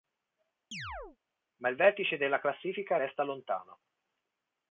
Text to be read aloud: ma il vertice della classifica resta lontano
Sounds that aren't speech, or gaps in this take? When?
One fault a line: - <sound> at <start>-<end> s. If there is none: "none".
- chirp at 0.7-1.2 s